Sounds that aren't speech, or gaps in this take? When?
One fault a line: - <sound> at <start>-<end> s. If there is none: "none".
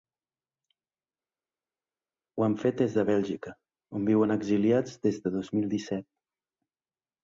none